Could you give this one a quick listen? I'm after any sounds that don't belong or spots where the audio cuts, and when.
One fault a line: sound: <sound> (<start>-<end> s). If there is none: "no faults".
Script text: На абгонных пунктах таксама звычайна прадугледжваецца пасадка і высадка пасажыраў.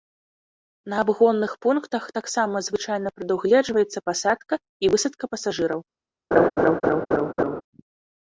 sound: laugh (6.3-7.6 s)